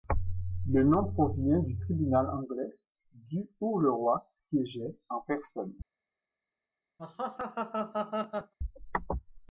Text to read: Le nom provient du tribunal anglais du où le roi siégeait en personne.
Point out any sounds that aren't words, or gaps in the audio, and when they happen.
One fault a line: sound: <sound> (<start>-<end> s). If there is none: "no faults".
sound: laugh (7.0-8.5 s)